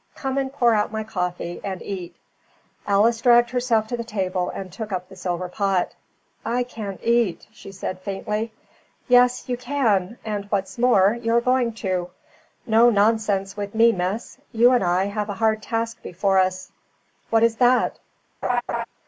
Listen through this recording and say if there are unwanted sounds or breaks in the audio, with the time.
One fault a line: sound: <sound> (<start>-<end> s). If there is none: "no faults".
sound: laugh (18.4-18.8 s)